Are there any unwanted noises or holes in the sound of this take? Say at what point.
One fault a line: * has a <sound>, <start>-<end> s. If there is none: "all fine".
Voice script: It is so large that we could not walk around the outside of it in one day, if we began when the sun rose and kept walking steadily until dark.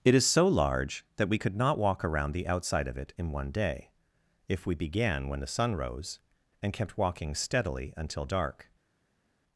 all fine